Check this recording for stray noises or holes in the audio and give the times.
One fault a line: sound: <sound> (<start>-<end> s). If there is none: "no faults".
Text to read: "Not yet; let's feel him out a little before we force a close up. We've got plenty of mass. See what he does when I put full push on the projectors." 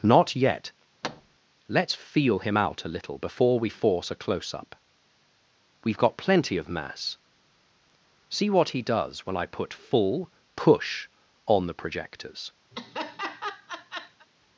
sound: thud (1.0-1.4 s)
sound: laugh (12.7-14.3 s)